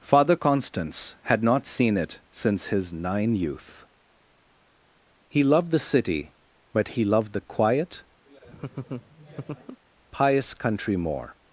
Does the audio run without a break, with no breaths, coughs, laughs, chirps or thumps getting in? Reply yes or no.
no